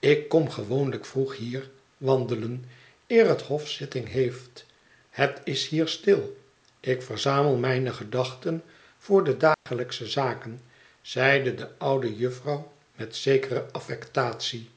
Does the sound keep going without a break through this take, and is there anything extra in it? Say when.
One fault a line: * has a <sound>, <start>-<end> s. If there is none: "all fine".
* has a dropout, 9.5-9.7 s